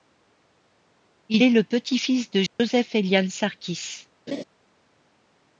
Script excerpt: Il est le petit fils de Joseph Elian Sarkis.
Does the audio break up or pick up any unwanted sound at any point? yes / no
yes